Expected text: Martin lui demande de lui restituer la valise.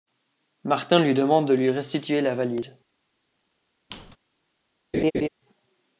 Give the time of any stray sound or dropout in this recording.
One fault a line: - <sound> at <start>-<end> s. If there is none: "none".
- squeak at 3.9-4.2 s
- laugh at 4.9-5.3 s